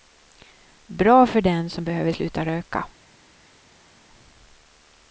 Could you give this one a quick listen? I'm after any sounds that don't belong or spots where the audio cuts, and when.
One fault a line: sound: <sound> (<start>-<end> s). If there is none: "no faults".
no faults